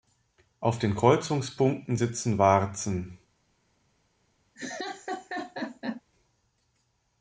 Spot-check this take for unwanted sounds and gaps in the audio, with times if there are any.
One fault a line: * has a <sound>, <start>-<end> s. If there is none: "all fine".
* has a laugh, 4.6-6.0 s